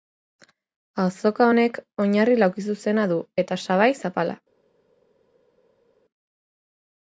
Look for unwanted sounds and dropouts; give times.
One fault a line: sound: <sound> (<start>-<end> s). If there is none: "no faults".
no faults